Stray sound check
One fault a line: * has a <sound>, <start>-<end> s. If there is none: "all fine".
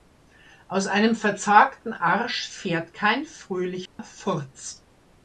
* has a dropout, 3.9-4.0 s